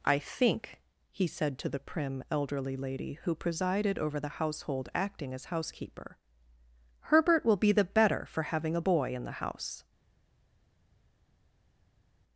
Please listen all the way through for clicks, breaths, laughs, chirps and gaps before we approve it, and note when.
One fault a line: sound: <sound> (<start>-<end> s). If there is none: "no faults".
no faults